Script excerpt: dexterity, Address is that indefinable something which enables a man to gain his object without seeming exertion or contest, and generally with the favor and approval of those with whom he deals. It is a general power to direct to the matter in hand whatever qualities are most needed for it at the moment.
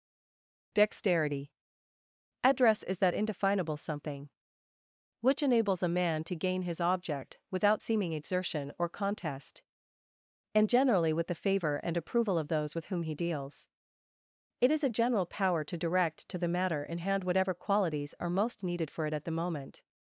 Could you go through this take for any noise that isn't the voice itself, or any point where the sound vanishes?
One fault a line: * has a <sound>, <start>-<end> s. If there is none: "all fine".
all fine